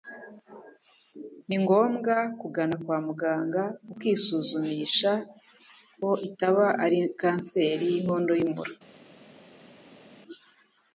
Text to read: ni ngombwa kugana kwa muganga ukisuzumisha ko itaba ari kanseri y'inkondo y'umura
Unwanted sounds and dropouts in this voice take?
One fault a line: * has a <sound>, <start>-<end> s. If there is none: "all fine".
all fine